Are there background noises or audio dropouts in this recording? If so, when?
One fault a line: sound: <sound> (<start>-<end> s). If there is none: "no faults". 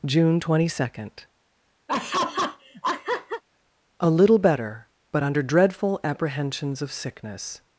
sound: laugh (1.9-3.4 s)